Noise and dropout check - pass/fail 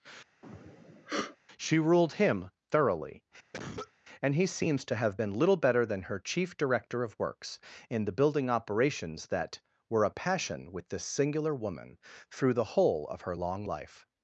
fail